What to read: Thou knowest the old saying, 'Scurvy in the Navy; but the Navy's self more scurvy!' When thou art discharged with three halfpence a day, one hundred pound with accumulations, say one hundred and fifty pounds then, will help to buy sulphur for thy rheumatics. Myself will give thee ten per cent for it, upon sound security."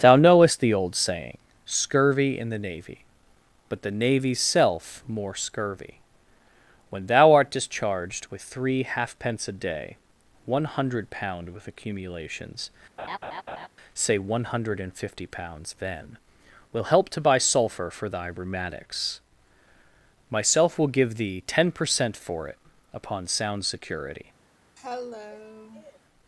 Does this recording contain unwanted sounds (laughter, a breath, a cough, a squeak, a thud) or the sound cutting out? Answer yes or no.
yes